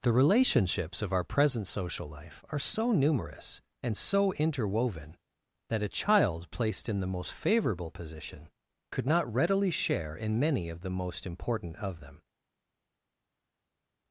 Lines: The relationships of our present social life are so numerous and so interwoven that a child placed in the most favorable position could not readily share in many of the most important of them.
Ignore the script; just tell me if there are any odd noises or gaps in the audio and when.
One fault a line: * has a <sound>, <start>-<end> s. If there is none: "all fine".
all fine